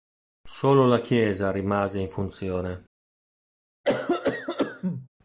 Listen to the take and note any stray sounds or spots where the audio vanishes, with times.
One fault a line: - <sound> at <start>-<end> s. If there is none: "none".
- cough at 3.8-5.1 s